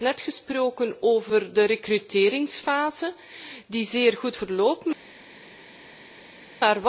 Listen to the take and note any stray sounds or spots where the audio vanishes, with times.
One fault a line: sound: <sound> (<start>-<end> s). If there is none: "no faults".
no faults